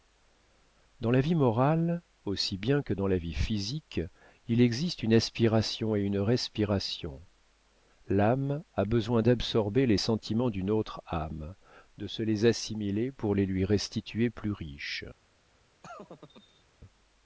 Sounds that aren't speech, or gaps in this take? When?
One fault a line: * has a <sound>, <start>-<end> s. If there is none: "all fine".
* has a laugh, 15.8-16.6 s